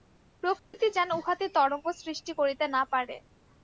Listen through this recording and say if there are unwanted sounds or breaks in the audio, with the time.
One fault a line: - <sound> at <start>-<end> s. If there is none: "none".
- dropout at 0.6-0.7 s